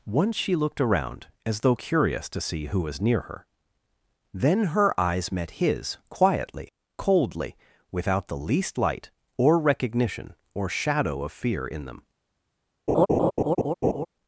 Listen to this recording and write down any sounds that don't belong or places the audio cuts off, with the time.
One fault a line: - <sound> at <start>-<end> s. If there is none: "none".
- laugh at 12.9-14.1 s